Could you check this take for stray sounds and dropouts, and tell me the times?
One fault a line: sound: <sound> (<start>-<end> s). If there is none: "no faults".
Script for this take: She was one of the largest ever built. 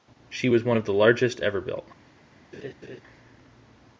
sound: laugh (2.5-3.0 s)